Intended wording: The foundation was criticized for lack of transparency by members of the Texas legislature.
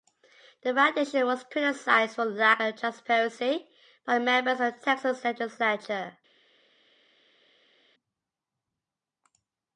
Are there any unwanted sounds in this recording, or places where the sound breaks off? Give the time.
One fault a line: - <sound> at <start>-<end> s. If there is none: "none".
none